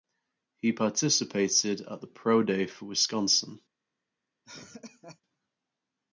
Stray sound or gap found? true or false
true